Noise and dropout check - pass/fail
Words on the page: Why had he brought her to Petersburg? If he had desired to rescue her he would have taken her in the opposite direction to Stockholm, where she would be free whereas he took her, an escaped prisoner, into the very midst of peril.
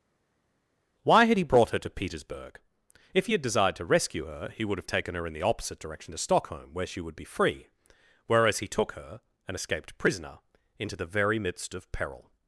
pass